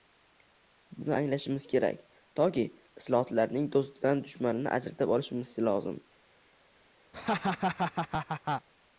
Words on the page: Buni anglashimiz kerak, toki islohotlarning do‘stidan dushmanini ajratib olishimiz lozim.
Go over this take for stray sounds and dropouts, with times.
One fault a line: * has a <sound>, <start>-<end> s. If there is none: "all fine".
* has a laugh, 7.1-8.7 s